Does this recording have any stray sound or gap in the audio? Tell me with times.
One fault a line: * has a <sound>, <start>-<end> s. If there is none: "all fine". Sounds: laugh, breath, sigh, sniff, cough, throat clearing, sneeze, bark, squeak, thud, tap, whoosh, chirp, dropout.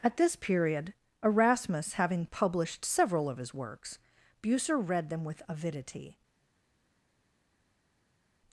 all fine